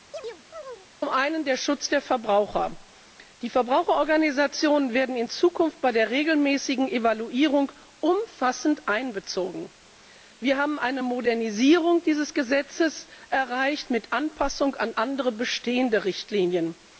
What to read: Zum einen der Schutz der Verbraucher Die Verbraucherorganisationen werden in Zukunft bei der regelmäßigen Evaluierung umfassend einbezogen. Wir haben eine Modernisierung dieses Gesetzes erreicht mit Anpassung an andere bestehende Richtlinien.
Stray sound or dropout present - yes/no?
yes